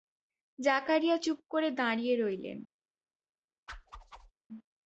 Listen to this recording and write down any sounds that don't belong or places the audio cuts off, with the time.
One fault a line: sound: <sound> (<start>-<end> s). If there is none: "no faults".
sound: whoosh (3.7-4.3 s)